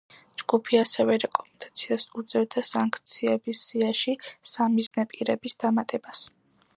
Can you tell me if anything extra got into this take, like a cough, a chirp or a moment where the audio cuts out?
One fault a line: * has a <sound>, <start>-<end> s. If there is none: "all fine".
* has a dropout, 4.9-4.9 s